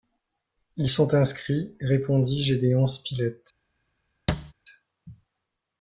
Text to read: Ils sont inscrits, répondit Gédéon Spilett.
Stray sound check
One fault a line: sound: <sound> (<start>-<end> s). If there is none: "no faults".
sound: thud (4.3-4.5 s)